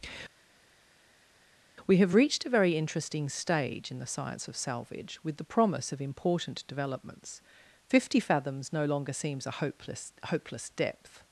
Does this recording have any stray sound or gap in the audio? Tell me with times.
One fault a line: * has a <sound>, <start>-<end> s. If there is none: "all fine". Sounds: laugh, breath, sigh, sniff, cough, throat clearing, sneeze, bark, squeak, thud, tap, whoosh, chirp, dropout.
all fine